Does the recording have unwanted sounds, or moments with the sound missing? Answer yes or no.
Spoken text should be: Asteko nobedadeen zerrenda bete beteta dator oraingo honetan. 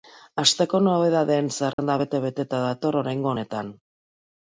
yes